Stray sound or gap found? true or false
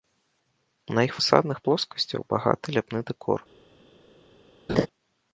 true